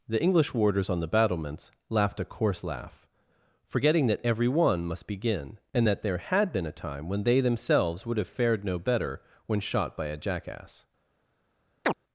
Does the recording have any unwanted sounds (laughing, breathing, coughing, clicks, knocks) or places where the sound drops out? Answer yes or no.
yes